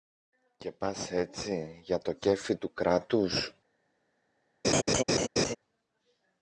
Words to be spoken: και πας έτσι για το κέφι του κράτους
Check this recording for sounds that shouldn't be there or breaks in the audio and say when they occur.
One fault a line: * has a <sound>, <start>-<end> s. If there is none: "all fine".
* has a laugh, 4.6-5.6 s